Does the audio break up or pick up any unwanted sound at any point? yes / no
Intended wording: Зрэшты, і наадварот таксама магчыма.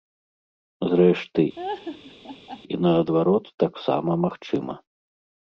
yes